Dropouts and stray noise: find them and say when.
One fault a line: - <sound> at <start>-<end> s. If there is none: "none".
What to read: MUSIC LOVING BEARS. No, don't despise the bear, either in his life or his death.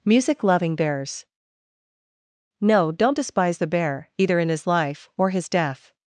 none